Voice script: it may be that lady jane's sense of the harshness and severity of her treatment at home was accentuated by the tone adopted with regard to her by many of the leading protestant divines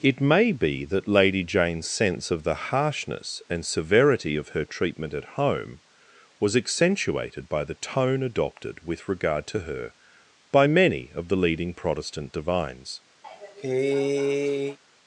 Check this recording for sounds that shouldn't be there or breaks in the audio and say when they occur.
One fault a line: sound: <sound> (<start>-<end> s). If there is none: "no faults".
sound: cough (13.2-14.8 s)